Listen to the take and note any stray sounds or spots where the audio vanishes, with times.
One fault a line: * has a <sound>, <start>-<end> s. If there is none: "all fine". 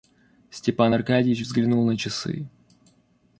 all fine